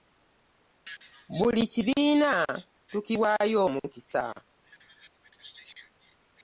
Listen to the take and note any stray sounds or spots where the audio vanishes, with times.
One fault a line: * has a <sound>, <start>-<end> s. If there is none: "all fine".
all fine